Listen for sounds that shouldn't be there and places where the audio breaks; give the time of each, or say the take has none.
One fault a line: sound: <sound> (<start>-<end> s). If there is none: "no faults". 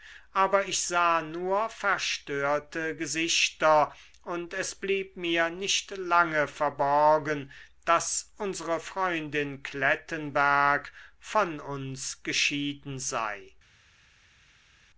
no faults